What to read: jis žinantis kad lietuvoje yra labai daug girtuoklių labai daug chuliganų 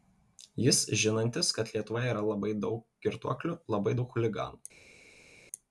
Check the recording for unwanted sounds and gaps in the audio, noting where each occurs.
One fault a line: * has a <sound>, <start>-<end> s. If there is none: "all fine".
all fine